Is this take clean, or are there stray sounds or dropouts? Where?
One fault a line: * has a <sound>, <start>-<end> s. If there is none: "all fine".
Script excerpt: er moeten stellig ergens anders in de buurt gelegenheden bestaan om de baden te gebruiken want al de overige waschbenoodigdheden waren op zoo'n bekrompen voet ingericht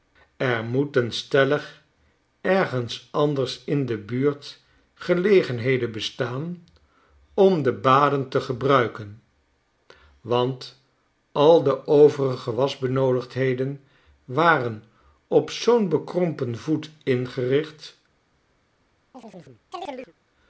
* has a chirp, 19.1-20.1 s